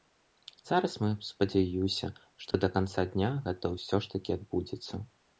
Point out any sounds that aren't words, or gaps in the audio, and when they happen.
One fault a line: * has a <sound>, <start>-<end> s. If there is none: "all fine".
* has a dropout, 2.5-2.5 s